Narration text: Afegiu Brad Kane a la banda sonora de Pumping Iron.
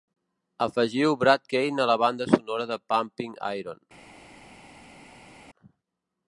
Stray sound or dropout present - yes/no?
no